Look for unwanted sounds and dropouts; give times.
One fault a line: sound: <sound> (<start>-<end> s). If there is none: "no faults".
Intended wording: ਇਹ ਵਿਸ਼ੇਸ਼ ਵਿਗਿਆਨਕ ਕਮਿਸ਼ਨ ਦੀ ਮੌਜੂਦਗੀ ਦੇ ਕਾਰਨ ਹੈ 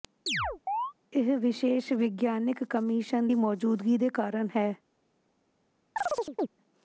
sound: chirp (0.3-0.9 s)
sound: chirp (6.0-6.5 s)